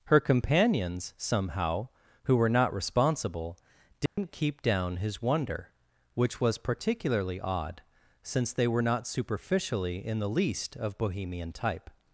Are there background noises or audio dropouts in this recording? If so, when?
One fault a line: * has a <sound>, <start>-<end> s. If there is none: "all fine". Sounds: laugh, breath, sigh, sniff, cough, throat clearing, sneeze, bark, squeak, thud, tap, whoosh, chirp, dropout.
* has a dropout, 4.1-4.2 s